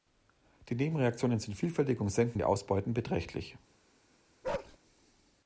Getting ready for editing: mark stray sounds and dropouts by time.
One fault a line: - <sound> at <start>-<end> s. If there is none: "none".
- bark at 4.4-4.8 s